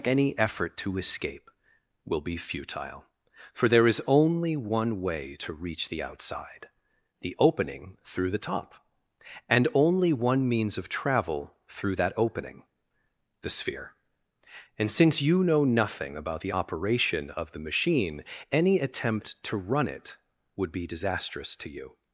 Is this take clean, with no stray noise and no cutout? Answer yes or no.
yes